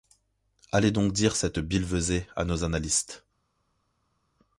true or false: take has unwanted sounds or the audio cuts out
false